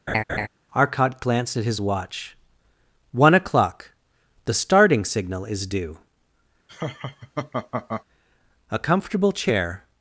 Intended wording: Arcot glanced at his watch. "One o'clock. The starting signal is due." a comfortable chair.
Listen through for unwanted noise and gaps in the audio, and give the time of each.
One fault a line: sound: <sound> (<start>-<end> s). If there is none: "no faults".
sound: laugh (0.1-0.5 s)
sound: laugh (6.7-8.0 s)